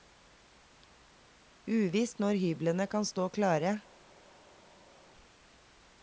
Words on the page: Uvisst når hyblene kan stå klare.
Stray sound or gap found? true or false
false